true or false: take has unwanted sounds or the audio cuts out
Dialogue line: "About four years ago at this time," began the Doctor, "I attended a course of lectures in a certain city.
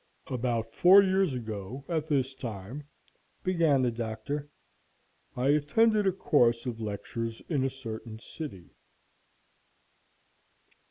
false